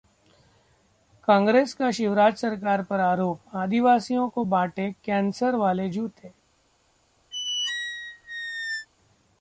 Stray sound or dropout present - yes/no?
yes